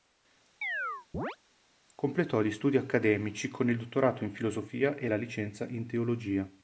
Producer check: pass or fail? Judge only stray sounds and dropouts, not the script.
fail